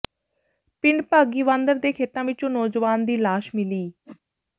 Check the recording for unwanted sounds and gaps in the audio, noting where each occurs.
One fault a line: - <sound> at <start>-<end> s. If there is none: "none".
- whoosh at 4.1-4.2 s